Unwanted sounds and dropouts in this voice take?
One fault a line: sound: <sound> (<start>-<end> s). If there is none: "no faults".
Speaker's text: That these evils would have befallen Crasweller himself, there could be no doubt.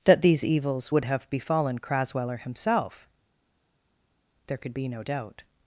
no faults